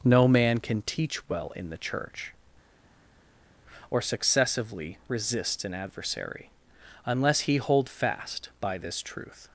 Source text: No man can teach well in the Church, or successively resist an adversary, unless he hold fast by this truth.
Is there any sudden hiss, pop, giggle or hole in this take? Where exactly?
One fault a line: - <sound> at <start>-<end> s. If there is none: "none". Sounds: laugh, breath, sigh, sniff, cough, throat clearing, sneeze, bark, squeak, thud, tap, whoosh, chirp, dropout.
none